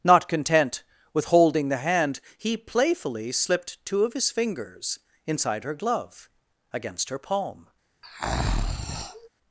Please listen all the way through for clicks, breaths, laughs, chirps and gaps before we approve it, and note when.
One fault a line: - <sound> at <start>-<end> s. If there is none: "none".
- breath at 8.0-9.3 s